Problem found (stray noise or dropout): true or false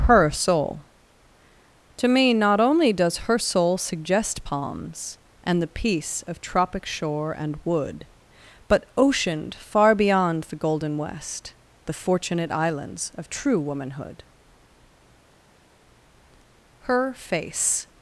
false